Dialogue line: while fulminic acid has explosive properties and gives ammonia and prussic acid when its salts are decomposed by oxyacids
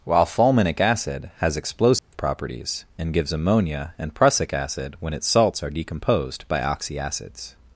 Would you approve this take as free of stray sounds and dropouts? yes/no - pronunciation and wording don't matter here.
no